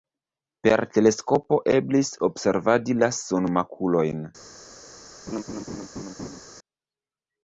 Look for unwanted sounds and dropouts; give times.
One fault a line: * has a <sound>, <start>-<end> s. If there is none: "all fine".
* has a laugh, 5.3-6.4 s